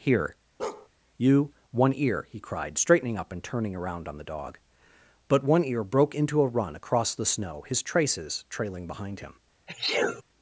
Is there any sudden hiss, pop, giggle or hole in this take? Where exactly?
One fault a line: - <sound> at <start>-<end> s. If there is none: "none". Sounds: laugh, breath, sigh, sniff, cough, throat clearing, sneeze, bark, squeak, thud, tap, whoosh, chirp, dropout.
- bark at 0.6-0.9 s
- sneeze at 9.7-10.2 s